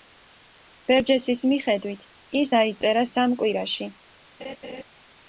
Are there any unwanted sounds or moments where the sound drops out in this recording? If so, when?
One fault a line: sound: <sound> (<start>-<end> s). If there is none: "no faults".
sound: laugh (4.4-4.8 s)